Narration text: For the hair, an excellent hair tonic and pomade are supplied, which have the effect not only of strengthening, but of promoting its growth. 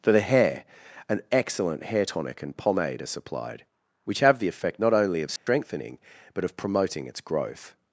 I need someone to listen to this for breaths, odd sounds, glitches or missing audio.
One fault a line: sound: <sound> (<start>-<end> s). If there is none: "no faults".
sound: dropout (5.4-5.5 s)